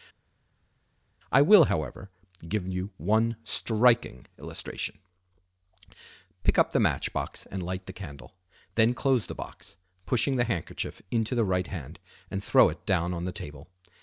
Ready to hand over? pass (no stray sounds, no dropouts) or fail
pass